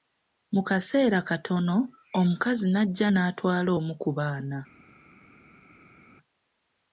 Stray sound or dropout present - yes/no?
no